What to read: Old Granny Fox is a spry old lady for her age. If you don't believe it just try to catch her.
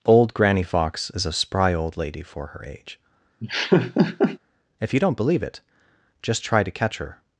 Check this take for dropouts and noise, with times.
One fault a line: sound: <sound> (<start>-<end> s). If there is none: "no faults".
sound: laugh (3.4-4.4 s)